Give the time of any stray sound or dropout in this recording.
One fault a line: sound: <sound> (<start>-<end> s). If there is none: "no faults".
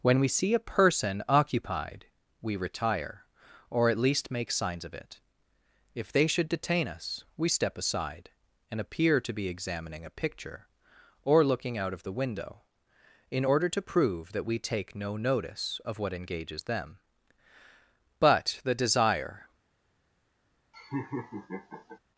sound: laugh (20.7-22.0 s)